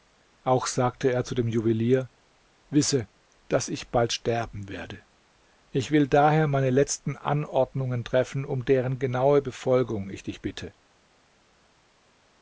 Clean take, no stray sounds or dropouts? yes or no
yes